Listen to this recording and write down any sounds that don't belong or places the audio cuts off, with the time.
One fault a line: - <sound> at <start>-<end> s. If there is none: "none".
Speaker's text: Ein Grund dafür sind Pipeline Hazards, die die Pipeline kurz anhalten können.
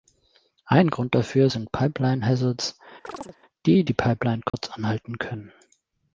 - chirp at 3.0-3.4 s
- dropout at 4.5-4.5 s